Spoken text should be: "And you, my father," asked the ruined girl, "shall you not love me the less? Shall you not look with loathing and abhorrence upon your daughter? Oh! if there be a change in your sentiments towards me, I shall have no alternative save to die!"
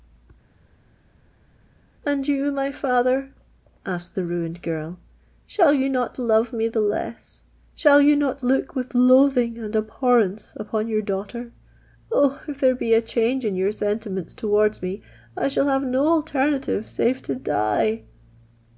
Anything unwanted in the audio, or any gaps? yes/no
no